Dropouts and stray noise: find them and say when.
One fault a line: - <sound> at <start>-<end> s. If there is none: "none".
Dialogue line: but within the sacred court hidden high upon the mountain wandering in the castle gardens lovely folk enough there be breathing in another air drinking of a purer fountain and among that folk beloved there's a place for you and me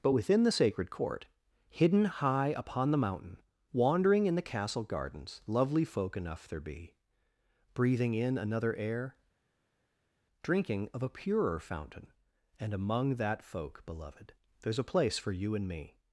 none